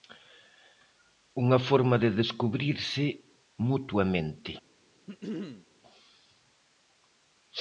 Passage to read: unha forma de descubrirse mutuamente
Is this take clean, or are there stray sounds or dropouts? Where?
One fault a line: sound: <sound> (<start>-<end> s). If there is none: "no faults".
sound: throat clearing (5.1-5.7 s)